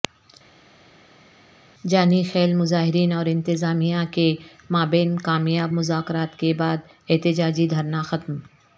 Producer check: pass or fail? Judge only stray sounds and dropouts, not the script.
pass